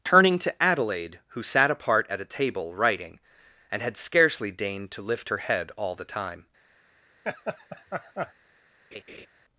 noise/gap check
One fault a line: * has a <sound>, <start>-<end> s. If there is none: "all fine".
* has a laugh, 7.2-8.3 s
* has a laugh, 8.9-9.3 s